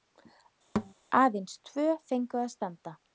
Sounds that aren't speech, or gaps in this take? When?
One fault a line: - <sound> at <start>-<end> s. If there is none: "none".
- thud at 0.8-0.9 s